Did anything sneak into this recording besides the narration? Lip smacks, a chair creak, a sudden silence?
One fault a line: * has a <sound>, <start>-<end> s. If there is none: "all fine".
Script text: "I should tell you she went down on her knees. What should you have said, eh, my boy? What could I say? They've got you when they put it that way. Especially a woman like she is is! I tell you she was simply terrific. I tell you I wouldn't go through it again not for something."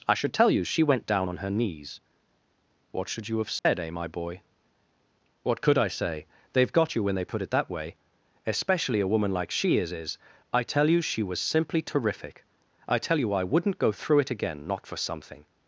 * has a dropout, 3.6-3.7 s